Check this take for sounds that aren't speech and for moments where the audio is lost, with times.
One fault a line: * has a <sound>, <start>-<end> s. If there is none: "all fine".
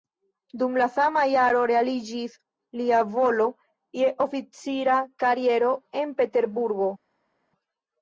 all fine